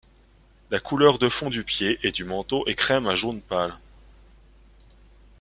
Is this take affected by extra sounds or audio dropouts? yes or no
no